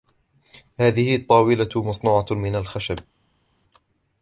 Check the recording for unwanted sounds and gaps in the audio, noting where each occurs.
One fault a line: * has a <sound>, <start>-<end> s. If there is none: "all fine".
all fine